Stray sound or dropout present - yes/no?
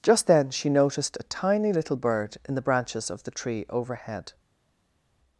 no